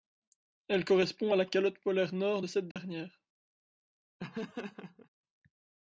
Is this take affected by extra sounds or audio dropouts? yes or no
yes